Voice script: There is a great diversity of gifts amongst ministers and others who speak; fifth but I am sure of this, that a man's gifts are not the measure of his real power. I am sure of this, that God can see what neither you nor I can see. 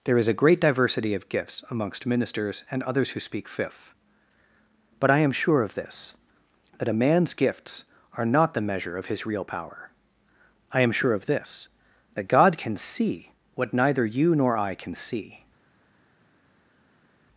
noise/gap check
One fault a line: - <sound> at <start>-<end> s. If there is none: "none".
none